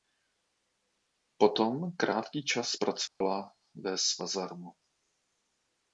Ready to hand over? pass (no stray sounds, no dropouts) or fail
fail